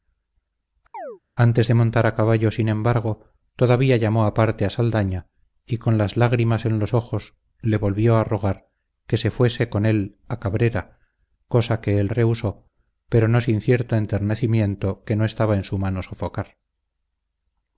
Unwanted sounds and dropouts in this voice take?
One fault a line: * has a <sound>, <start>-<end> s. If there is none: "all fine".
* has a chirp, 0.9-1.2 s